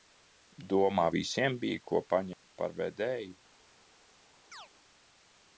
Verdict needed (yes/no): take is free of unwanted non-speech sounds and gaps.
no